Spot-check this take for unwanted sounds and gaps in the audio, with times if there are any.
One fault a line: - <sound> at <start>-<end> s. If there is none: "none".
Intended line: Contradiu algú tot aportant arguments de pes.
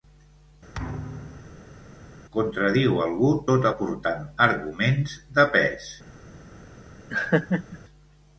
- thud at 0.7-1.8 s
- laugh at 7.1-7.8 s